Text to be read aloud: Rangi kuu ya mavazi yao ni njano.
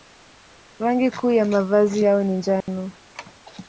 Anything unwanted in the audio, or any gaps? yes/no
yes